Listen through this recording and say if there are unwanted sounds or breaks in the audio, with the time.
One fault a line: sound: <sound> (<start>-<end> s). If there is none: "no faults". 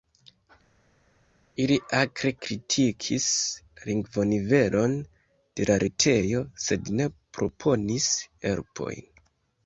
no faults